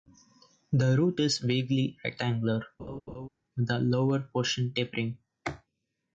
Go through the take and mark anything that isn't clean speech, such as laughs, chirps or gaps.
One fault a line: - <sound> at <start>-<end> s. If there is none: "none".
- laugh at 2.8-3.3 s